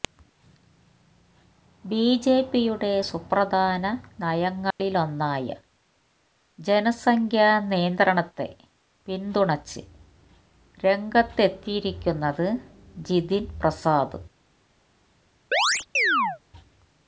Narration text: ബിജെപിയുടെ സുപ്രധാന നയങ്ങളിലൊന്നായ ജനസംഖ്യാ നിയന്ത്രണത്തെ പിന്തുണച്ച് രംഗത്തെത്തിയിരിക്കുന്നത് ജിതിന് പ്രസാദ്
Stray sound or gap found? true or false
true